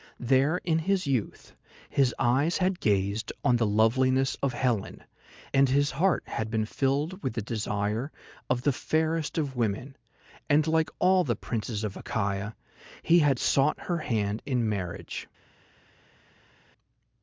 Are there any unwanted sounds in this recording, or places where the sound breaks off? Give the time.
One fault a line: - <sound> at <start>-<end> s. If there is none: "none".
none